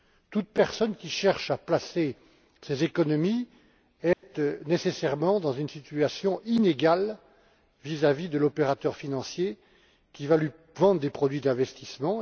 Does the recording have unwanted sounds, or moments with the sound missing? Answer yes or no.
yes